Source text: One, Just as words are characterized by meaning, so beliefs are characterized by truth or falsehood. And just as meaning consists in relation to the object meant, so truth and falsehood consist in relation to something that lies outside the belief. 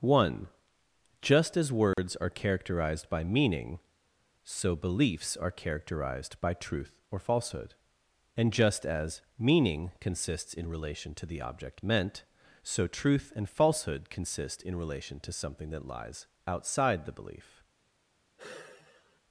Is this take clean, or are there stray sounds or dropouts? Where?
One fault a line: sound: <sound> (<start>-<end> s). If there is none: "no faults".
sound: dropout (1.9-2.0 s)
sound: sigh (18.4-19.2 s)